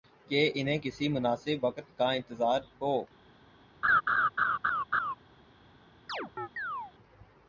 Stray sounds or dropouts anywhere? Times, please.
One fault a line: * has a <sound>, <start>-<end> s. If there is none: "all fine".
* has a laugh, 3.8-5.1 s
* has a chirp, 6.1-6.9 s